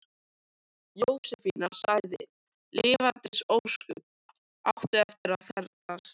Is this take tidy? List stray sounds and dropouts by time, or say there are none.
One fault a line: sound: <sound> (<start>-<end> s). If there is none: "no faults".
no faults